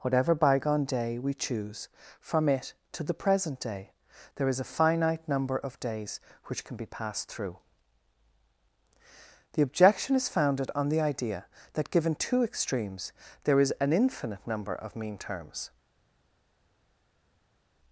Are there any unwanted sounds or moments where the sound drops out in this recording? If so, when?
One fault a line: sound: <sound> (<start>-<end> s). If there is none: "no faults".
no faults